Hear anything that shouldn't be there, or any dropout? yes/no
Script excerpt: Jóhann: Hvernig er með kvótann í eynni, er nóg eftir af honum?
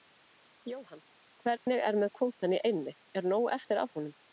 yes